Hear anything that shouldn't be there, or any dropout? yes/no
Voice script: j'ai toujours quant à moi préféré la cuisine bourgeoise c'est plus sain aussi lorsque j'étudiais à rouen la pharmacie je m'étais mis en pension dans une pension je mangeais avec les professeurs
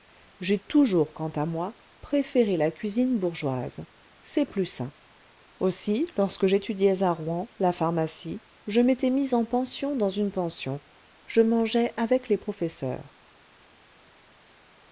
no